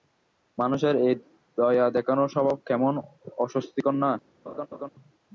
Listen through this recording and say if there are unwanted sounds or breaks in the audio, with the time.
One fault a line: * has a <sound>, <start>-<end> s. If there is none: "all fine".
* has a laugh, 4.5-4.9 s